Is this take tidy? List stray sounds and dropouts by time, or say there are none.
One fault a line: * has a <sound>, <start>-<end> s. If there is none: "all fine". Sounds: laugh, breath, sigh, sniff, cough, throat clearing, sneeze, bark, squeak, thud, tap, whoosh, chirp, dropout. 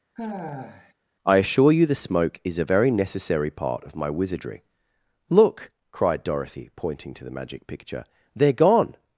* has a sigh, 0.2-0.9 s